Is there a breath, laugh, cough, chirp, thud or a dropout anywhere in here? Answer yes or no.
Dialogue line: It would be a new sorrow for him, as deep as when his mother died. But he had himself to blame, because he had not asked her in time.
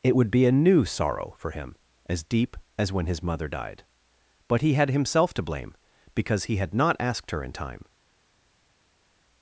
no